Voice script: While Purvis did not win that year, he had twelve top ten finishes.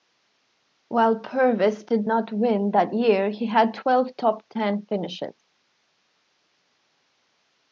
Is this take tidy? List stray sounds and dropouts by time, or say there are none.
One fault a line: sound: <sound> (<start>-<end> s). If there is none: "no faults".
no faults